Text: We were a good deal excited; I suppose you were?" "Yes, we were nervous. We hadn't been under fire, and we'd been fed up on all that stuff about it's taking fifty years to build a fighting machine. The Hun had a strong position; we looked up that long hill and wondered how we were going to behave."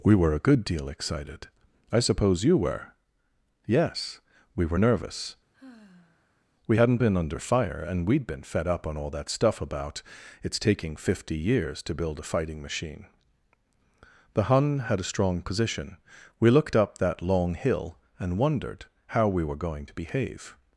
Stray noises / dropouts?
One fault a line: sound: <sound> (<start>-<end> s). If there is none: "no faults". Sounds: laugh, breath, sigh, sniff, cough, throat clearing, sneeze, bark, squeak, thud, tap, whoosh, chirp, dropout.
sound: sigh (5.5-6.4 s)